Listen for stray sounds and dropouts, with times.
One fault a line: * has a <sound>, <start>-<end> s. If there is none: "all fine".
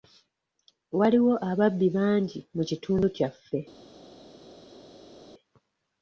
all fine